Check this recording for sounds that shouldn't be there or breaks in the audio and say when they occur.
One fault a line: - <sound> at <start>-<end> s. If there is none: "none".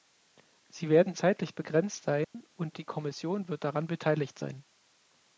- dropout at 2.2-2.3 s